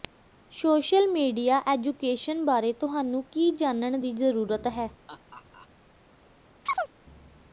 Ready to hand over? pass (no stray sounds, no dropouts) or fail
fail